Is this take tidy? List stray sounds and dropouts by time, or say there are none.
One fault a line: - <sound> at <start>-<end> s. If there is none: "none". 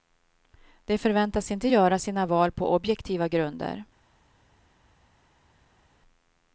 none